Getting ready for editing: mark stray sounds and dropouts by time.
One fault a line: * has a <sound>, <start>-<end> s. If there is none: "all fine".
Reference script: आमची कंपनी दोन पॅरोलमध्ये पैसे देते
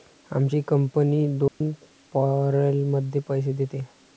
* has a dropout, 1.5-1.6 s